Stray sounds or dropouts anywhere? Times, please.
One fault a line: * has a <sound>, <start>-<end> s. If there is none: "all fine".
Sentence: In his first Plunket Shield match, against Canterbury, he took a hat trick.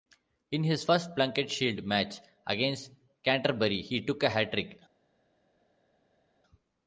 all fine